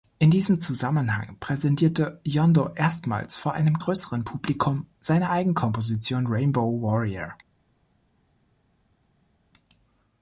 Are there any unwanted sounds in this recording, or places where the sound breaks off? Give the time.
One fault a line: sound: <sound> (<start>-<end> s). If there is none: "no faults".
no faults